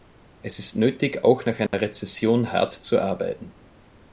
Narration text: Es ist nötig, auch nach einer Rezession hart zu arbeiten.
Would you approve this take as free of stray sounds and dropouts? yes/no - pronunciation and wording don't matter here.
no